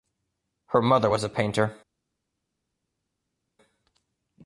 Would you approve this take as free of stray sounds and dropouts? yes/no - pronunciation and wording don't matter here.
yes